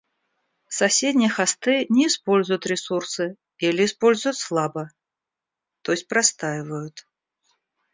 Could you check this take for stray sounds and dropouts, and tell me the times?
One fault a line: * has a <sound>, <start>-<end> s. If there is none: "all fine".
all fine